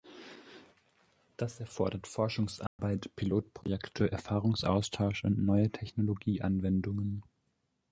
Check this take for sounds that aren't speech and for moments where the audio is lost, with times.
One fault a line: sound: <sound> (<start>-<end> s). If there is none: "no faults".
sound: dropout (2.7-2.8 s)